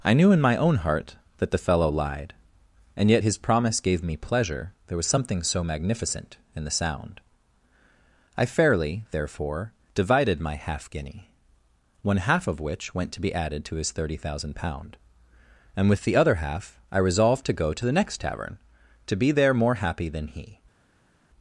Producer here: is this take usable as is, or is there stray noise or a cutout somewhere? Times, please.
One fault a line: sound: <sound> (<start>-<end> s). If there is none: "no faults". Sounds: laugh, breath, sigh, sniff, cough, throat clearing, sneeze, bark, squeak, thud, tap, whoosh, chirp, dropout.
no faults